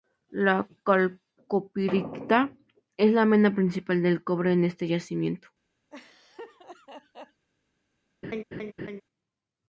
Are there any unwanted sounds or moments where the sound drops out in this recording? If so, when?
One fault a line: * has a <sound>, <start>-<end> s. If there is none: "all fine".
* has a laugh, 5.9-7.5 s
* has a laugh, 8.2-9.0 s